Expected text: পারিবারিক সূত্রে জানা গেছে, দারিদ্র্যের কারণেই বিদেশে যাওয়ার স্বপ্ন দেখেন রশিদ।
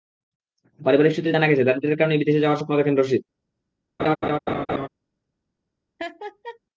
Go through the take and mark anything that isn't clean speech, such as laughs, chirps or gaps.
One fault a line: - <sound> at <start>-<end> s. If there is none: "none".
- laugh at 4.0-4.9 s
- laugh at 6.0-6.6 s